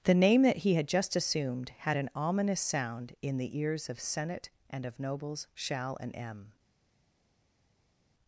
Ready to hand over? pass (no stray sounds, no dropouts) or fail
pass